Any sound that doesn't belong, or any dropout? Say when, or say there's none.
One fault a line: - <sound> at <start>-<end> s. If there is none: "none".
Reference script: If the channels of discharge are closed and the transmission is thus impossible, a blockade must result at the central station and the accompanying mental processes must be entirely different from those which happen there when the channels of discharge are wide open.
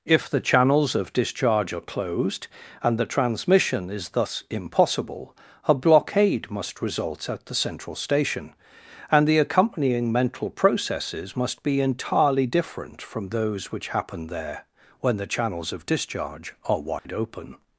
- dropout at 17.0-17.1 s